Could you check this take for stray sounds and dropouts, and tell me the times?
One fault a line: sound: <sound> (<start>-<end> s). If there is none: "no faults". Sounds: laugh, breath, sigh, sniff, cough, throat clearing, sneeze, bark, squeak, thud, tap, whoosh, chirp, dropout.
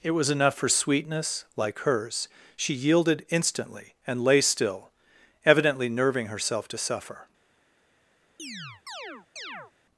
sound: chirp (8.4-9.7 s)